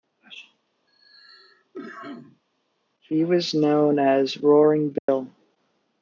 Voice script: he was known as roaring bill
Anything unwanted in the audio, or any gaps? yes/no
yes